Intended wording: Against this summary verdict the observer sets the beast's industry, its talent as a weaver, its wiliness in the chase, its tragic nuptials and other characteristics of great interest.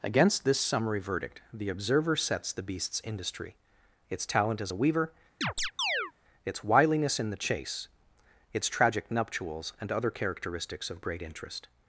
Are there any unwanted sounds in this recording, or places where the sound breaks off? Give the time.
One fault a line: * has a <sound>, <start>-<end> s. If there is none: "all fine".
* has a chirp, 5.4-6.1 s